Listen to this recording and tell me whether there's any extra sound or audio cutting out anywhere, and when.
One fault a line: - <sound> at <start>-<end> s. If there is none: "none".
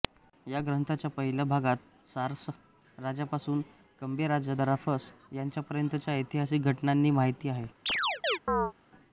- chirp at 7.9-8.7 s